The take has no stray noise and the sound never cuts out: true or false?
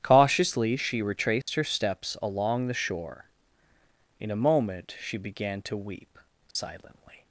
false